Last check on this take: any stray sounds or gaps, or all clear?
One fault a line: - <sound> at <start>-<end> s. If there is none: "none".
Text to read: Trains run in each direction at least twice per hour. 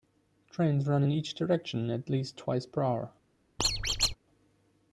- squeak at 3.6-4.2 s